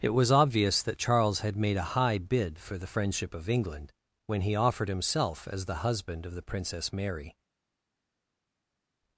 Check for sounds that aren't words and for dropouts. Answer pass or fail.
pass